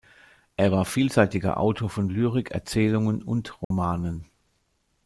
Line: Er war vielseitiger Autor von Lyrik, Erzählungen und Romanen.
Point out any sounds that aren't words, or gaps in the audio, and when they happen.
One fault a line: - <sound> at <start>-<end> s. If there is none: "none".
- dropout at 3.6-3.7 s